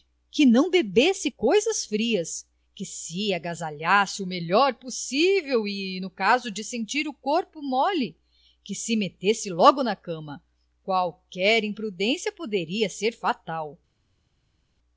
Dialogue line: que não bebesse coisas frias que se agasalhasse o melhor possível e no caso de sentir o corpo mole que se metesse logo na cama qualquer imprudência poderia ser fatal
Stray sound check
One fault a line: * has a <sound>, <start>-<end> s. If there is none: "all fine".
all fine